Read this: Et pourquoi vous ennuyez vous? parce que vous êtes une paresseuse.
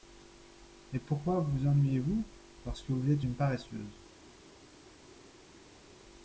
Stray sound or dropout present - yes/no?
no